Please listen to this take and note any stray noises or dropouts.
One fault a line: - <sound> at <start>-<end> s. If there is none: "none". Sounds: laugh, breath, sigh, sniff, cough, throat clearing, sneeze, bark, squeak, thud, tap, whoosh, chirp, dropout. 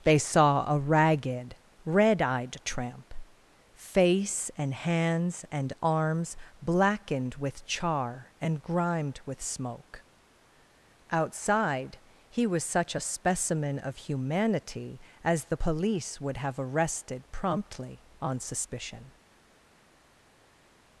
none